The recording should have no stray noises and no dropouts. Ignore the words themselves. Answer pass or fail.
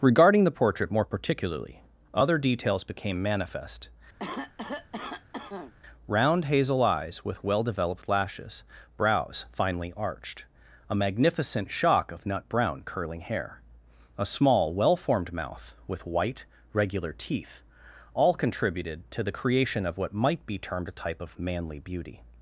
fail